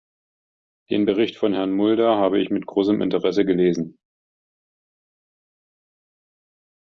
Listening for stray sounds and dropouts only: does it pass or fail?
pass